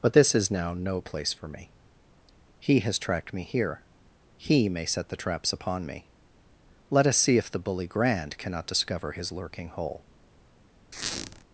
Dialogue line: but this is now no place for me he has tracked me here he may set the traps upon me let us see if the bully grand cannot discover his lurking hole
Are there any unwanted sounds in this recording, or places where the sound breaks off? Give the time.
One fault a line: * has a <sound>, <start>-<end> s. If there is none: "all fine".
* has a squeak, 10.9-11.4 s